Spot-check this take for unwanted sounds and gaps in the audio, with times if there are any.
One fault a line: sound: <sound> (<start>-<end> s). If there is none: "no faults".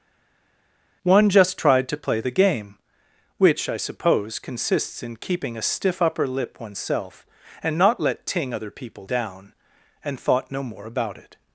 no faults